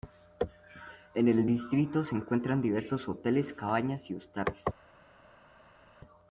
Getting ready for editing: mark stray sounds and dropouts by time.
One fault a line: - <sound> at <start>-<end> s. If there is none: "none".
none